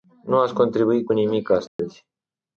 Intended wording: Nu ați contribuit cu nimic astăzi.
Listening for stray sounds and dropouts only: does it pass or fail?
fail